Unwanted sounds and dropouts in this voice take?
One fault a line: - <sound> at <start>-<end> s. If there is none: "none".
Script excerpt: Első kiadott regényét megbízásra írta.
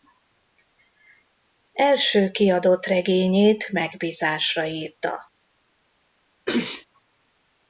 - sneeze at 6.5-6.9 s